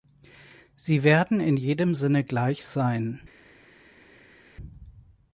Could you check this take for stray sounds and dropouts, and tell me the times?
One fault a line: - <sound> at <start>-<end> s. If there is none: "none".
none